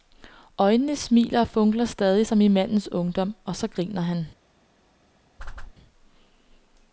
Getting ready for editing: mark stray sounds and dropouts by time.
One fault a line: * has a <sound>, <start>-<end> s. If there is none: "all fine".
* has a whoosh, 5.4-5.7 s